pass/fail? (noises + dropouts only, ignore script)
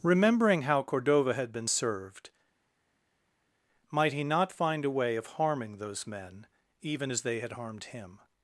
pass